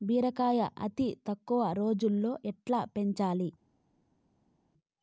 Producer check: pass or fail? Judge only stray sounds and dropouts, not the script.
pass